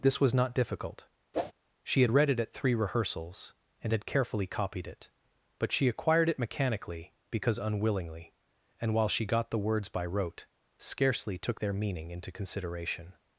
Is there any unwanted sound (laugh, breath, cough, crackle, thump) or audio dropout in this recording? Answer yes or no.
yes